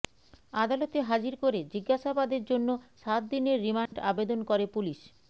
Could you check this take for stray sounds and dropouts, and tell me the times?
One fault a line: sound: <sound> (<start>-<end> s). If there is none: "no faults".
sound: dropout (3.9-3.9 s)